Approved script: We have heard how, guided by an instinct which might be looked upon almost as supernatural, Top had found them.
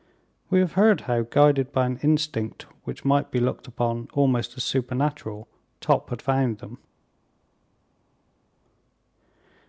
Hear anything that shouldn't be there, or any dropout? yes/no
no